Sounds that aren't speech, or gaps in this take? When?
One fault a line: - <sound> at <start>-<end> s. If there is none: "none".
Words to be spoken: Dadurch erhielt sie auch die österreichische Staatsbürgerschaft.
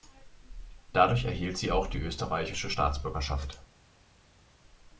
none